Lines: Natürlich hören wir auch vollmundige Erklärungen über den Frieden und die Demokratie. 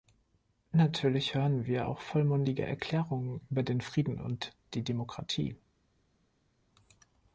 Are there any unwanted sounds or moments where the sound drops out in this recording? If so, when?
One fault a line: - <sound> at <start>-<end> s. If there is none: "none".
none